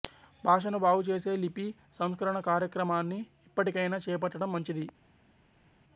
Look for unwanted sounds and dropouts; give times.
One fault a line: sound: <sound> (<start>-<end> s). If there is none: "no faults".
no faults